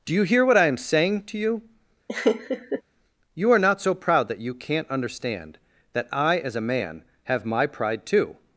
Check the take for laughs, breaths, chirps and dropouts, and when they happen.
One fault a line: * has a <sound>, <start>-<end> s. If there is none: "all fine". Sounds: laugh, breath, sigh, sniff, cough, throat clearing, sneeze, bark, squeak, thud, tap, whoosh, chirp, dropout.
* has a laugh, 2.1-2.8 s